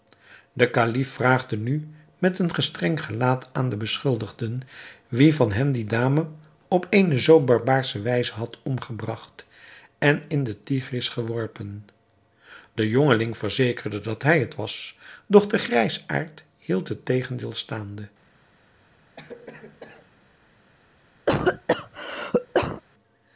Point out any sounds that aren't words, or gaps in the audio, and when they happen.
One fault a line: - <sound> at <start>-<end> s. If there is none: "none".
- cough at 19.2-20.1 s
- cough at 21.3-22.8 s